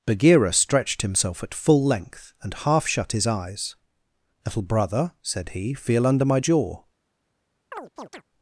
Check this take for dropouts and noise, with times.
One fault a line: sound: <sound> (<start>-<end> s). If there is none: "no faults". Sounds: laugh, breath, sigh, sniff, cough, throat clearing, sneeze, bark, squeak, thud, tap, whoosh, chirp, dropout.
sound: chirp (7.7-8.2 s)